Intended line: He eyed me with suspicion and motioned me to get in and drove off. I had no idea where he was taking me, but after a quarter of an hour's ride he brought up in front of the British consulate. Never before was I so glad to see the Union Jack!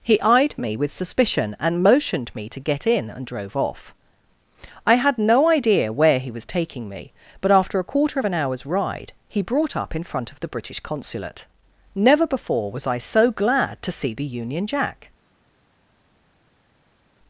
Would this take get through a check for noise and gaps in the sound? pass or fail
pass